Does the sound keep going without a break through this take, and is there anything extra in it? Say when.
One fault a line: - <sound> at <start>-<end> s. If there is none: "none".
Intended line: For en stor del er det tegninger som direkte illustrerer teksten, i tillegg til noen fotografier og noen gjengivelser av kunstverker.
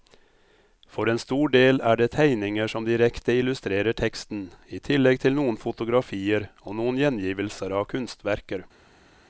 none